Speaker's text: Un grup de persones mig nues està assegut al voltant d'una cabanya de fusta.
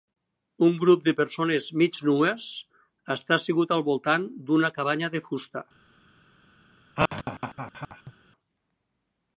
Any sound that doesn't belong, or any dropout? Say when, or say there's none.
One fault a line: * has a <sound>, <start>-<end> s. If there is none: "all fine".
* has a laugh, 7.0-8.1 s